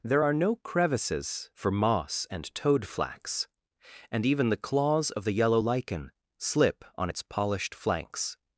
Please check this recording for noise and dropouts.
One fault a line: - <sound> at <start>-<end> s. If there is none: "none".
none